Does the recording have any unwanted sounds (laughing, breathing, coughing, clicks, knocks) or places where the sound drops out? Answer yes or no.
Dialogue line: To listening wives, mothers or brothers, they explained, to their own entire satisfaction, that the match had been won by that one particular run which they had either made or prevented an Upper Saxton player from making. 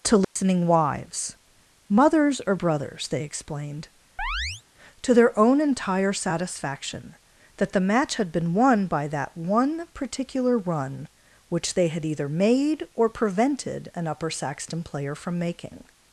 yes